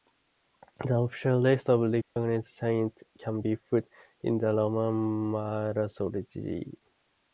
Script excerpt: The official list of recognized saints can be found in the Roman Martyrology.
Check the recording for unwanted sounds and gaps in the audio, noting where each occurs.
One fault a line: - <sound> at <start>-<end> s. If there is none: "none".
- dropout at 2.0-2.2 s